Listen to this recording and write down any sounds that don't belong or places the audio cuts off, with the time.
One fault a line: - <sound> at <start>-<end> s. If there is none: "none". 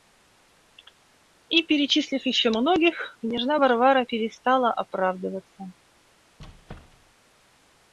- squeak at 6.4-7.2 s